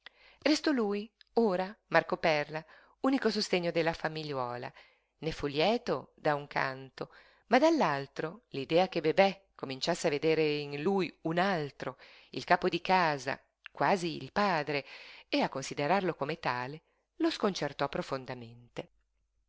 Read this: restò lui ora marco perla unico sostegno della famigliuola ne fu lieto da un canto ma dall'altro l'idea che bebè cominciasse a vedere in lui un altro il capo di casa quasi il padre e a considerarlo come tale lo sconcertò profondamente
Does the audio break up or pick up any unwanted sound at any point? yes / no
no